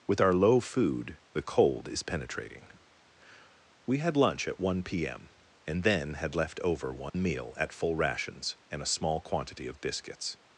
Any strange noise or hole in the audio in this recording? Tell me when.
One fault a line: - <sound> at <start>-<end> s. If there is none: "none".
- dropout at 7.1-7.1 s